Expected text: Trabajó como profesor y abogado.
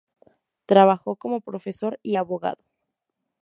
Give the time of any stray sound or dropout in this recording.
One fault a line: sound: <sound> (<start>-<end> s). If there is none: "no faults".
no faults